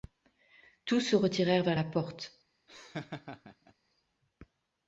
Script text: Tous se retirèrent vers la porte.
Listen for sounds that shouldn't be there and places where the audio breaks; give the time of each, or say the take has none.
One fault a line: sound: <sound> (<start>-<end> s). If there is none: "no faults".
sound: laugh (2.7-3.7 s)